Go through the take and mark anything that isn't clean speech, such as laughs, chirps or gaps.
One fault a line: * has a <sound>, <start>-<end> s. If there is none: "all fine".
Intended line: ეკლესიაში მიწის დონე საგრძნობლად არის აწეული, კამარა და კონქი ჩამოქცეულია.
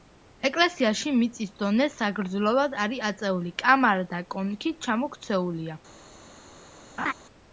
* has a laugh, 7.0-7.1 s